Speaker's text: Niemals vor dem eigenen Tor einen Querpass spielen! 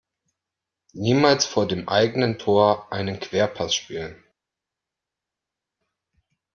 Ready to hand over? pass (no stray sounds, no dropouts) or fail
pass